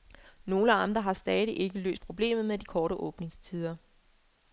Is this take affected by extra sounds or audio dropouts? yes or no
no